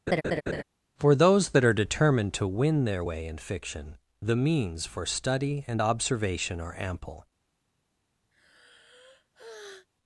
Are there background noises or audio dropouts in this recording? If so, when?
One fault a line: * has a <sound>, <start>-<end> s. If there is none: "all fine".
* has a laugh, 0.1-0.6 s
* has a sigh, 8.3-9.9 s